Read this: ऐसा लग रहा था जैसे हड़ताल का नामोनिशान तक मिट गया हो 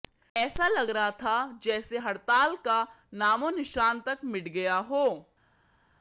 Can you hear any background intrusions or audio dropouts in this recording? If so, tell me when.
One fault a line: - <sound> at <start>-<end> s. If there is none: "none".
none